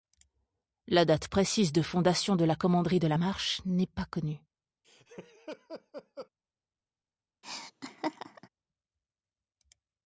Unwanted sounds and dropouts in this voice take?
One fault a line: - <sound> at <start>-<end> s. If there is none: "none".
- laugh at 4.8-6.3 s
- laugh at 7.4-8.5 s